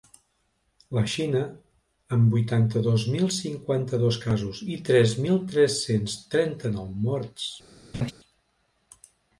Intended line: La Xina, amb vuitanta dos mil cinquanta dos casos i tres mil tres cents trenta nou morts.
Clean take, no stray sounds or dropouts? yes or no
no